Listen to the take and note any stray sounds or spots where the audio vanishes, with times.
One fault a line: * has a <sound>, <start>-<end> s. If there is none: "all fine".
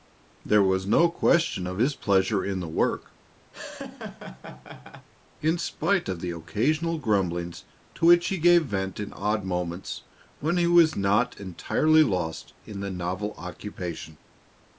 * has a laugh, 3.5-5.1 s